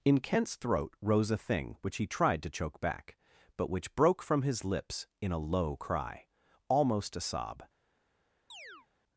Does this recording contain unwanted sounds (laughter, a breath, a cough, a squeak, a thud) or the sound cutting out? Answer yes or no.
yes